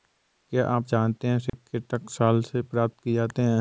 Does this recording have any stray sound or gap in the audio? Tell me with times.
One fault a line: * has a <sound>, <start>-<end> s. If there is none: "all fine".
* has a dropout, 1.5-1.5 s